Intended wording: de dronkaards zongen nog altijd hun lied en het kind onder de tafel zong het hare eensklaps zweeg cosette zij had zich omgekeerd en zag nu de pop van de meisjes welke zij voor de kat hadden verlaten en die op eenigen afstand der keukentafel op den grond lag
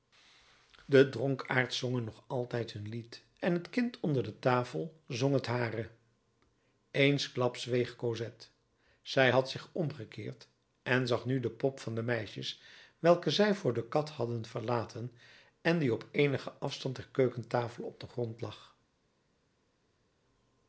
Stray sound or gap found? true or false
false